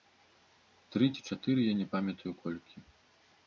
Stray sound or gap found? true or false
false